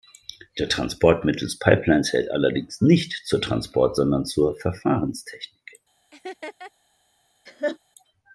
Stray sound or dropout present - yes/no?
yes